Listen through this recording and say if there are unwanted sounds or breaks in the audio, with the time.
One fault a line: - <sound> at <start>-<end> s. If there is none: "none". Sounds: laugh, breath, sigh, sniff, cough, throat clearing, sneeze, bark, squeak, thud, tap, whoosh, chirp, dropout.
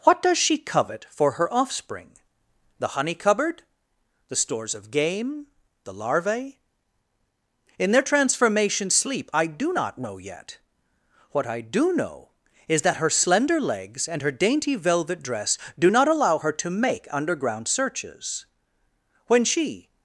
none